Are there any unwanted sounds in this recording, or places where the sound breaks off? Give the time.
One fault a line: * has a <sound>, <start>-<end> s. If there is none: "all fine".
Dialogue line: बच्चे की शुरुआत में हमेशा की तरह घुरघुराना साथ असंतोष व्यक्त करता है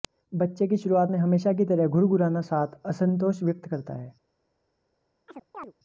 * has a chirp, 5.3-5.7 s